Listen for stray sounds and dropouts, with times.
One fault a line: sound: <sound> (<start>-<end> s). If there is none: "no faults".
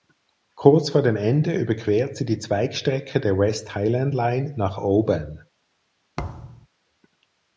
sound: thud (6.2-6.7 s)